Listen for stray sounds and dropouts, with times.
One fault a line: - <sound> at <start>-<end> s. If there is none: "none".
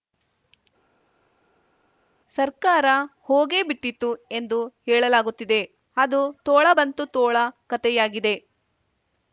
none